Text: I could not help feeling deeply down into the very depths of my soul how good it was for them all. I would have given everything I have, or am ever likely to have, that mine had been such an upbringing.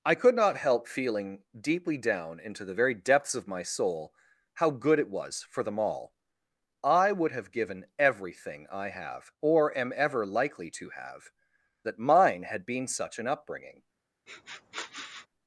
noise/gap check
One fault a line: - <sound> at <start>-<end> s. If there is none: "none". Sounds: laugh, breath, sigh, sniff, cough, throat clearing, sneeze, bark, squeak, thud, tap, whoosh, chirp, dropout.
- sniff at 14.3-15.3 s